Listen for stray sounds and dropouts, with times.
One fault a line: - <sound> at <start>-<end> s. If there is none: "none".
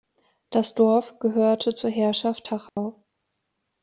- dropout at 2.7-2.8 s